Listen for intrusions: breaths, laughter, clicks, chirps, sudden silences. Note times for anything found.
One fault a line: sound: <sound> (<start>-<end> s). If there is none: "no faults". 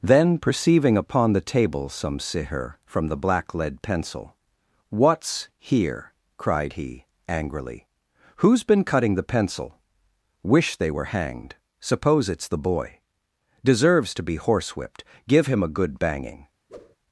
sound: whoosh (16.7-17.0 s)